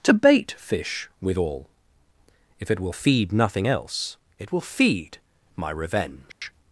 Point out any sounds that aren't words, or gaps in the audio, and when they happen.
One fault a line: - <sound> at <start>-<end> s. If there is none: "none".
- dropout at 6.3-6.4 s